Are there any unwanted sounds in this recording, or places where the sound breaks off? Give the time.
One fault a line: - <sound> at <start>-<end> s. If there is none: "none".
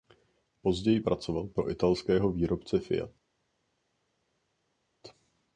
none